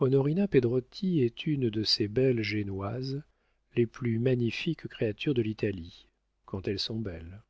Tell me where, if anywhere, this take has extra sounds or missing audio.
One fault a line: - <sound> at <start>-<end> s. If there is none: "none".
none